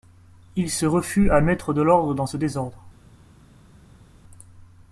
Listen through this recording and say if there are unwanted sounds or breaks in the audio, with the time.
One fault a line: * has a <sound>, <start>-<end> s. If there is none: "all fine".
all fine